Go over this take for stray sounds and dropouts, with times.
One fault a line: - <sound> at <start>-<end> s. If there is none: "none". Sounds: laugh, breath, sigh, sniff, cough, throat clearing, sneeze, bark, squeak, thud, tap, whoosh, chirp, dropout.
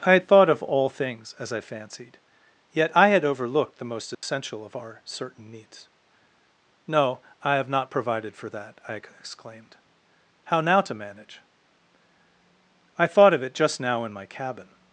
- dropout at 4.1-4.2 s